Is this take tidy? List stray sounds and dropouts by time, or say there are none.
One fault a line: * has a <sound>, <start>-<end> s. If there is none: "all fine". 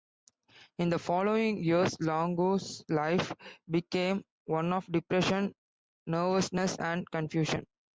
all fine